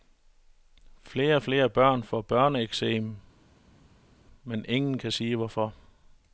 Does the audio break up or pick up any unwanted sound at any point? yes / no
no